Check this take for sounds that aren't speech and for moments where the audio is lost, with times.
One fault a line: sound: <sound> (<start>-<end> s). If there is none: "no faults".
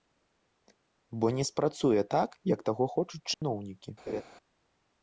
sound: dropout (3.3-3.4 s)
sound: laugh (4.1-4.2 s)